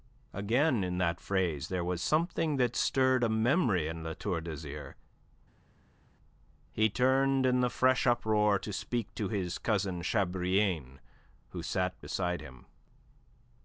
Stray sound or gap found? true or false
false